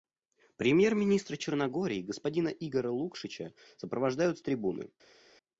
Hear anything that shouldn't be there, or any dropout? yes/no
no